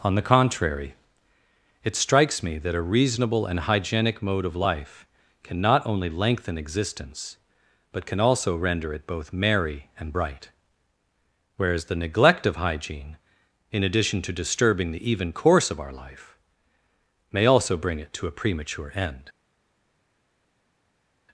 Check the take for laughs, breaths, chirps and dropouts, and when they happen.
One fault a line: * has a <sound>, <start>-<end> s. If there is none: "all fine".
all fine